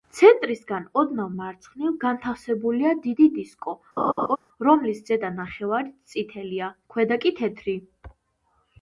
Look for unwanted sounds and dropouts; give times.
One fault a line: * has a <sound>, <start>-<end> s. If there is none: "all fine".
* has a laugh, 4.0-4.4 s